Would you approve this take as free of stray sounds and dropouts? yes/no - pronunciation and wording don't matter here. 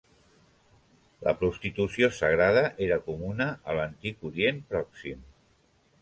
yes